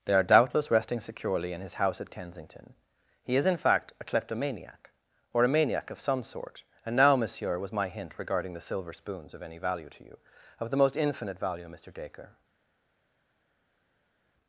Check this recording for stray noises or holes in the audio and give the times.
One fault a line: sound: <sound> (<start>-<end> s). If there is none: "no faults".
no faults